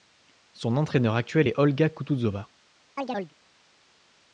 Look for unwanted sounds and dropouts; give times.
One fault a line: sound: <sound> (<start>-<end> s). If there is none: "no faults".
sound: chirp (3.0-3.3 s)